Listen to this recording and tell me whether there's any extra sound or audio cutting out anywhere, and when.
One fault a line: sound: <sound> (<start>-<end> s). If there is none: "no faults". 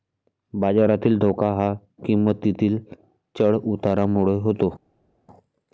no faults